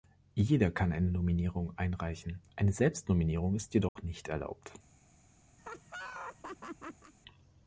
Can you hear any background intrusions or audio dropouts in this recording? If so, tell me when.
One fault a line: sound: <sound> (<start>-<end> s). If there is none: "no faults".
sound: dropout (3.9-4.0 s)
sound: laugh (5.6-7.1 s)